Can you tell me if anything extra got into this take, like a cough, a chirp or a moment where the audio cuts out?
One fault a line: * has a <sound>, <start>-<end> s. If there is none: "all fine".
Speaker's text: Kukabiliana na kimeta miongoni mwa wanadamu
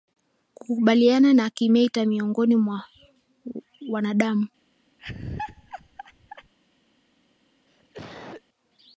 * has a laugh, 5.0-6.5 s
* has a cough, 7.7-8.4 s